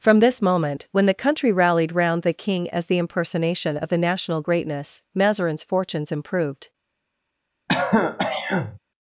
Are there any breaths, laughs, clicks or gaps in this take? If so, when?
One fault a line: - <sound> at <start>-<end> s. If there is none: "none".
- throat clearing at 7.7-8.8 s